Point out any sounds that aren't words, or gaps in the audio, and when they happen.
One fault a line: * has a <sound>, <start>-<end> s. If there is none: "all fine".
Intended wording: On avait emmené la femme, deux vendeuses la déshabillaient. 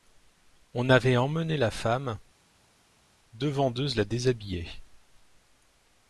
all fine